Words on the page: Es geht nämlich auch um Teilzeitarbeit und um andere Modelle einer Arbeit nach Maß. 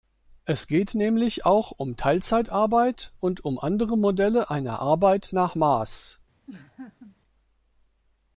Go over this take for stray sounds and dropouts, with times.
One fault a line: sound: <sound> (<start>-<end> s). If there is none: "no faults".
sound: laugh (6.5-7.2 s)